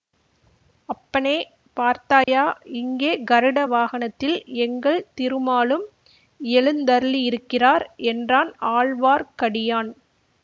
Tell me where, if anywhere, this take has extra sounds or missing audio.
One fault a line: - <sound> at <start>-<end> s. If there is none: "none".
- dropout at 2.2-2.3 s